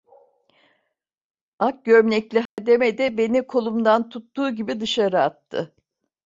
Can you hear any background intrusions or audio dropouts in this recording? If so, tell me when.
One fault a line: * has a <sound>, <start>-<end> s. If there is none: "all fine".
* has a dropout, 2.5-2.6 s